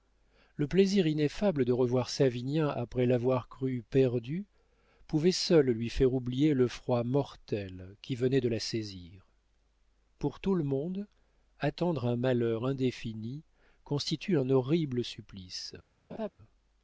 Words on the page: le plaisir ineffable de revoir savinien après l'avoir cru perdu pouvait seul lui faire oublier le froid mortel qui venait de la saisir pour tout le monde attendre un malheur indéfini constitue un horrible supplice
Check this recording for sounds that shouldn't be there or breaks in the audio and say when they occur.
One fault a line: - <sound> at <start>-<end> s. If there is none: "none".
- laugh at 16.1-16.3 s